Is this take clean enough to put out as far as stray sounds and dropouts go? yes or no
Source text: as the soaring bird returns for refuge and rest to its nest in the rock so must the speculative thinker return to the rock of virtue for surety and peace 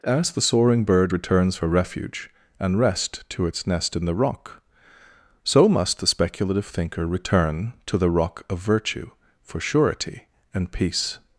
yes